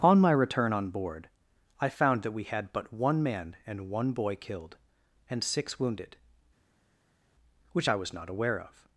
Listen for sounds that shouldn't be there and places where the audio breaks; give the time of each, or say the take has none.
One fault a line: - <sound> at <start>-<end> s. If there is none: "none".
none